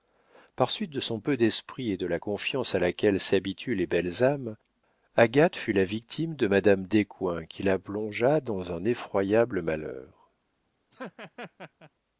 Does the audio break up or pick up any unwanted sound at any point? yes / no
yes